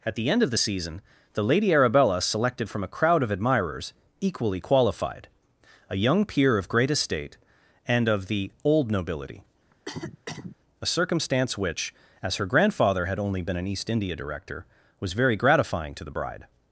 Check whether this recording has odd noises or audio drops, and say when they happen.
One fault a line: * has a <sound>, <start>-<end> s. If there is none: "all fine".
* has a cough, 9.7-10.6 s